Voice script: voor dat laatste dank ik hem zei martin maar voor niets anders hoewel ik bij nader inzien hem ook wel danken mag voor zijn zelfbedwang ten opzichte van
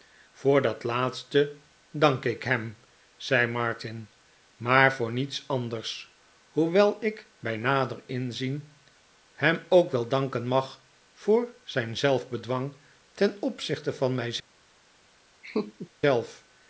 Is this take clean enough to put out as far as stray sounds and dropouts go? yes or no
no